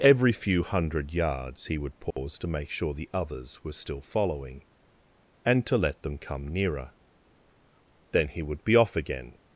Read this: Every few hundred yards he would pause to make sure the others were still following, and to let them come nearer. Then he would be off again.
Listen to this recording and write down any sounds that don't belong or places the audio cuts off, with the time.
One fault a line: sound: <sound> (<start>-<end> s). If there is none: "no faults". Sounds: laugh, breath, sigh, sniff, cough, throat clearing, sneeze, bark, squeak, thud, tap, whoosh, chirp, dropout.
sound: dropout (2.1-2.2 s)